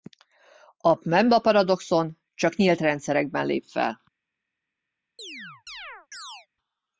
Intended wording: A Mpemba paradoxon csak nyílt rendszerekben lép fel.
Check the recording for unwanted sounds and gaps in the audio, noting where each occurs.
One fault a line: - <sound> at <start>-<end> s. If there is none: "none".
- chirp at 5.2-6.5 s